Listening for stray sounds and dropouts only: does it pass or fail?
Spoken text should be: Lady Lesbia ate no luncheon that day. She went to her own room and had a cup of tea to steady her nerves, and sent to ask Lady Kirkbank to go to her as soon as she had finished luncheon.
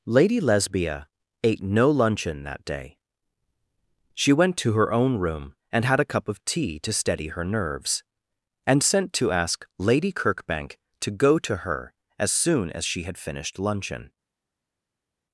pass